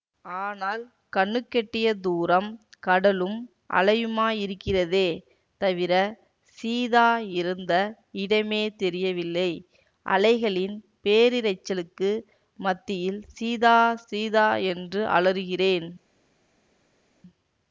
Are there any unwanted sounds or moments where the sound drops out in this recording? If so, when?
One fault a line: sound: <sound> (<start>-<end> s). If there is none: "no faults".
no faults